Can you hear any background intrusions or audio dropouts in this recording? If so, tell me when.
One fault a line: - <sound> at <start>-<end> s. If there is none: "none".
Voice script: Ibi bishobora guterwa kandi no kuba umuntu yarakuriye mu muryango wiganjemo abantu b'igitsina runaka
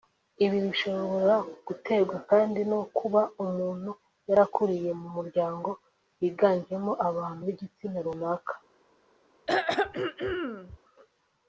- throat clearing at 9.5-10.8 s